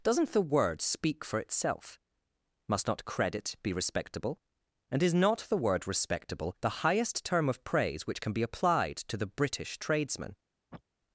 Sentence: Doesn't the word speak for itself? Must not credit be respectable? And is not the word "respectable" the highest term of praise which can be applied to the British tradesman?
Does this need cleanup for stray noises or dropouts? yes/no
yes